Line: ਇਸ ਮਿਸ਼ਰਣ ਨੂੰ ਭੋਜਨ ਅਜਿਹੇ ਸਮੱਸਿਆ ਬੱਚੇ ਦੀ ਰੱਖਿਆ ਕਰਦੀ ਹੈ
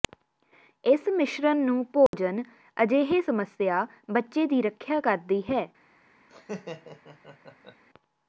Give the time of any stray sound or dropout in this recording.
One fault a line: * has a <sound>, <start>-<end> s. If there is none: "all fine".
* has a dropout, 2.1-2.1 s
* has a laugh, 6.3-7.8 s